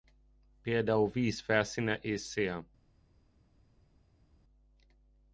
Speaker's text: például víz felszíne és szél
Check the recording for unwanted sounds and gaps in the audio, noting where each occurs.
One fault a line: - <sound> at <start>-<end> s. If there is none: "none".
none